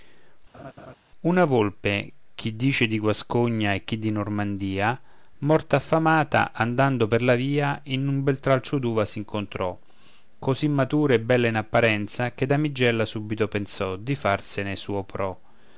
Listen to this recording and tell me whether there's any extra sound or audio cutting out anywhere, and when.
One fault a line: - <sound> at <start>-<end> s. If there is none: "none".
- laugh at 0.5-1.0 s